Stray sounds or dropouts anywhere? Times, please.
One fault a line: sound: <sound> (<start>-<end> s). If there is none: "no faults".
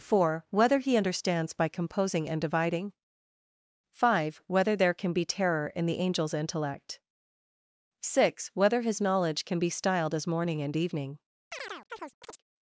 sound: chirp (11.5-12.4 s)